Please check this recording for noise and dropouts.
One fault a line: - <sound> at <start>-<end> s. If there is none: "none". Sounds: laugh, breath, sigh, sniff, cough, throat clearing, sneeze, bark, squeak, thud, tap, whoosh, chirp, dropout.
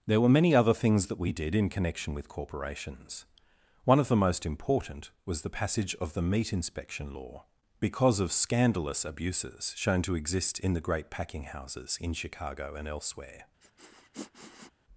- sniff at 13.6-14.7 s